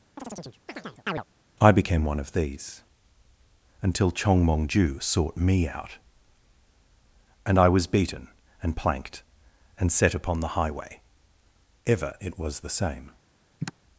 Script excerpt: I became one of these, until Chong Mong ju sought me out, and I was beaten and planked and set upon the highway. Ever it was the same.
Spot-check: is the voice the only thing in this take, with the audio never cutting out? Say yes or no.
no